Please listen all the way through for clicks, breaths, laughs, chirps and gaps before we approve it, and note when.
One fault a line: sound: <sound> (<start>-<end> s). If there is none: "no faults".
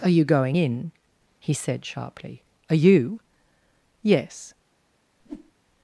sound: whoosh (5.2-5.5 s)